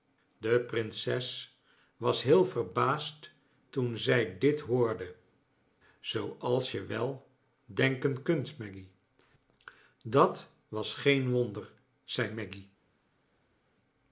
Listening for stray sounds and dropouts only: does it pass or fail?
pass